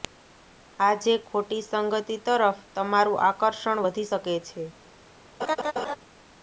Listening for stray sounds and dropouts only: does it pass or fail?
fail